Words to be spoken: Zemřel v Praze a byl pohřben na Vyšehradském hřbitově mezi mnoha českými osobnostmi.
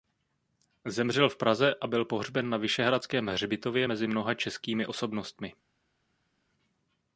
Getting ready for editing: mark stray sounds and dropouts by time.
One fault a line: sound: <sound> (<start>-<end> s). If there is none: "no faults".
no faults